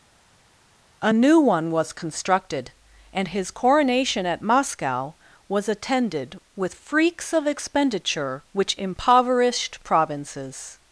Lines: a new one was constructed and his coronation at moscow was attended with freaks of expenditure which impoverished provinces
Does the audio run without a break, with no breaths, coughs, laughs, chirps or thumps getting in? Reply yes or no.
yes